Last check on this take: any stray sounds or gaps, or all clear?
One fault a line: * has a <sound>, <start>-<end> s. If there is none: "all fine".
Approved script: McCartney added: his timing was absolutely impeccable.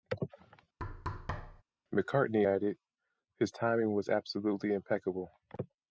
* has a thud, 0.8-1.6 s